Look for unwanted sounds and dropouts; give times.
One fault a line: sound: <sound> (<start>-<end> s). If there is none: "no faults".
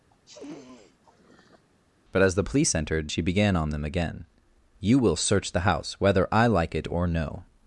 sound: sniff (0.1-1.7 s)